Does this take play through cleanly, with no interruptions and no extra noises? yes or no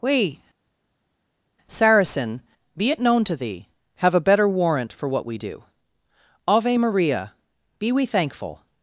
yes